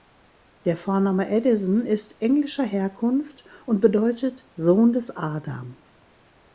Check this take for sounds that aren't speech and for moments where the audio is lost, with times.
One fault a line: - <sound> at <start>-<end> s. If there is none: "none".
none